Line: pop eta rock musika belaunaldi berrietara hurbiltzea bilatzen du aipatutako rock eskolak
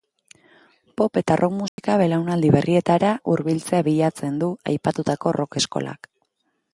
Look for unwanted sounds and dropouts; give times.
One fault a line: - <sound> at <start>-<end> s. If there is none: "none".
- dropout at 1.7-1.8 s